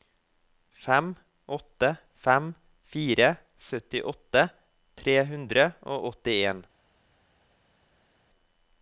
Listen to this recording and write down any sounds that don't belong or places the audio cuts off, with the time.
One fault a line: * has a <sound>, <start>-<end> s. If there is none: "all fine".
all fine